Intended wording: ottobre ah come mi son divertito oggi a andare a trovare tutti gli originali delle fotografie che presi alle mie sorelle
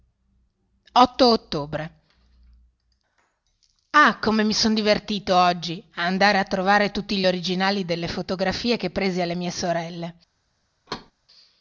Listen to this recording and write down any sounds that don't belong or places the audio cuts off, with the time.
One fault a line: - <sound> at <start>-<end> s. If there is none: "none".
- thud at 10.9-11.1 s